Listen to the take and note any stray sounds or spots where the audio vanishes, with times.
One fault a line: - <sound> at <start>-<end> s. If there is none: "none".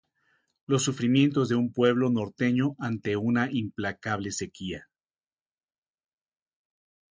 none